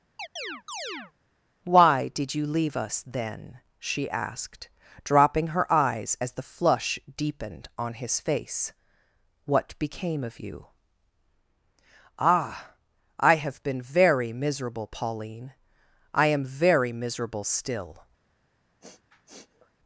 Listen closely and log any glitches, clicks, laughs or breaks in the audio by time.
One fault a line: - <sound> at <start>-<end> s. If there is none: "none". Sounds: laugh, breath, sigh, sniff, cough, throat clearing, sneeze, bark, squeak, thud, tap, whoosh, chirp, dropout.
- chirp at 0.2-1.1 s
- sniff at 18.8-19.7 s